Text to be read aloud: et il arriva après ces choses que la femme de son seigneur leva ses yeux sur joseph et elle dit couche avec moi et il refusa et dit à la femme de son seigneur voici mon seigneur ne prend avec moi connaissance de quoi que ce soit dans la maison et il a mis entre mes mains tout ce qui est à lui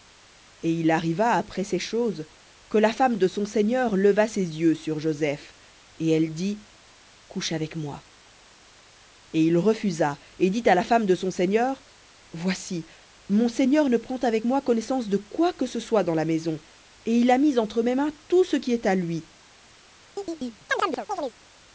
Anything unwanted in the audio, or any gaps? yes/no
yes